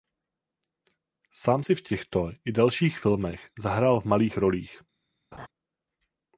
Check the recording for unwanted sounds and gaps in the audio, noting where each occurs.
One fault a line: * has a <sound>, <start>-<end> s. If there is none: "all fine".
* has a laugh, 5.3-5.5 s